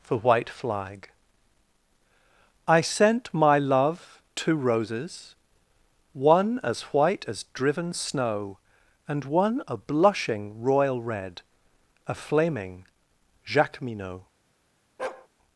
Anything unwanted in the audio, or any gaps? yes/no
yes